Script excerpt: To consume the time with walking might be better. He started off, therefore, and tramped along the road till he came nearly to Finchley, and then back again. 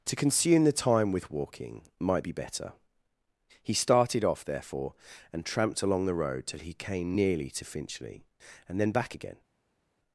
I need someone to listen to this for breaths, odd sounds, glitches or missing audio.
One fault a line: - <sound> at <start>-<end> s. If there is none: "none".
none